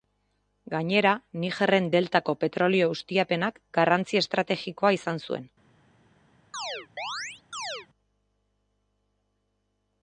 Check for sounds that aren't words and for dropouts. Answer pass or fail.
fail